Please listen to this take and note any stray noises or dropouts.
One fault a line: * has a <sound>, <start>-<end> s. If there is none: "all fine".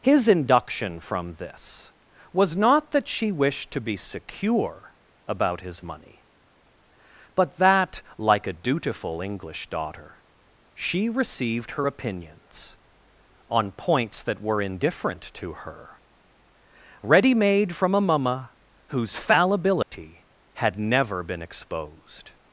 * has a dropout, 19.8-19.9 s